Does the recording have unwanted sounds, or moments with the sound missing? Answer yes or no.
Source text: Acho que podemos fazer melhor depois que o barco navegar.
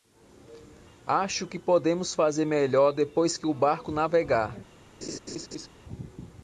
yes